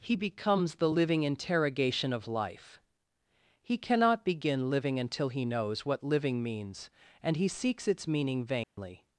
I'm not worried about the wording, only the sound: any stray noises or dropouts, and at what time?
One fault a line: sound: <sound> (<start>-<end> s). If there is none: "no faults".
sound: dropout (8.6-8.8 s)